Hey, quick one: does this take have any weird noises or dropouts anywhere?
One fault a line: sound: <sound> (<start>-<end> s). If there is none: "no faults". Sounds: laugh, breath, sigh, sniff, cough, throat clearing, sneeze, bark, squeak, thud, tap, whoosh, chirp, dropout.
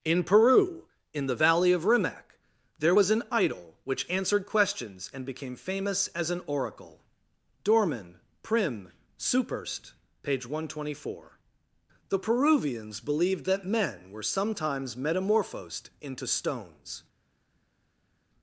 no faults